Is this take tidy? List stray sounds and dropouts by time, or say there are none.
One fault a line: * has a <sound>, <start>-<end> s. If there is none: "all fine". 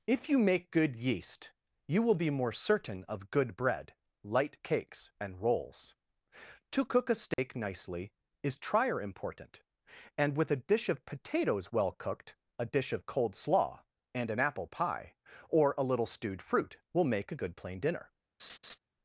* has a dropout, 7.3-7.4 s
* has a laugh, 18.4-18.8 s